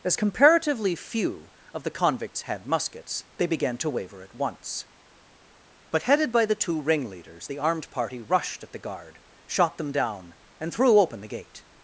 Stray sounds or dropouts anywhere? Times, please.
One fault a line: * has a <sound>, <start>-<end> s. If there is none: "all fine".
all fine